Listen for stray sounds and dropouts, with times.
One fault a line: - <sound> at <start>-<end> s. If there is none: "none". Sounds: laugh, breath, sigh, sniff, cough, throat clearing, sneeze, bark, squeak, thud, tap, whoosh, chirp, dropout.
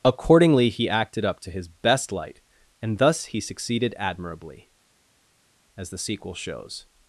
none